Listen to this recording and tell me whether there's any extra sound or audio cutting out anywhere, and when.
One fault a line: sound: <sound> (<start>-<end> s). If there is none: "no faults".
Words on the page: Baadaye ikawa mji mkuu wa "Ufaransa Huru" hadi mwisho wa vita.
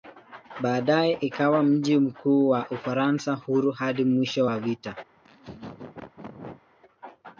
sound: laugh (5.1-6.6 s)